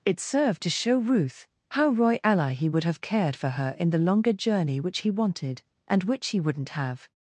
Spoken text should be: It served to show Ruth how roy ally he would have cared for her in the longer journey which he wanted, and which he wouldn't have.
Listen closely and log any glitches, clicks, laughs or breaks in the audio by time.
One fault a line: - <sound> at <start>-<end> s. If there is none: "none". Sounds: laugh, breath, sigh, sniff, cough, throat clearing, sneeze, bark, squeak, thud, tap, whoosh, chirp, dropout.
none